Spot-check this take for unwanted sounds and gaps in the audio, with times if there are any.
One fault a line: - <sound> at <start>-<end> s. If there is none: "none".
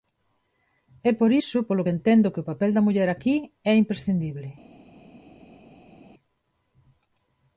none